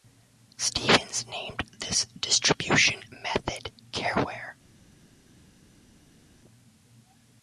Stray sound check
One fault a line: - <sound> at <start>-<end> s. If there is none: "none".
none